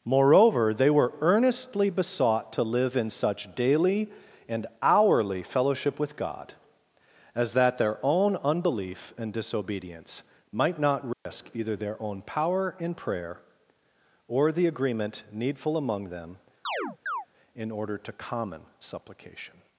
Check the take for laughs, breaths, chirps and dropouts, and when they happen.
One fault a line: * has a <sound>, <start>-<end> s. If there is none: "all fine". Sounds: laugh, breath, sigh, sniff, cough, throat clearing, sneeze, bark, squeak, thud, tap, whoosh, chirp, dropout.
* has a dropout, 11.1-11.3 s
* has a chirp, 16.6-17.3 s